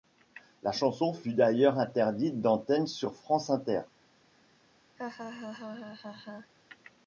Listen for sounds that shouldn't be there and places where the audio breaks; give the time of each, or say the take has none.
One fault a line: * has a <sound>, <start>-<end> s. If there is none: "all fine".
* has a laugh, 5.0-6.5 s